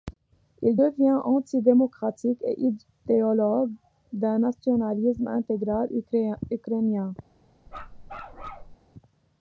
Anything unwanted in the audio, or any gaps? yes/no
yes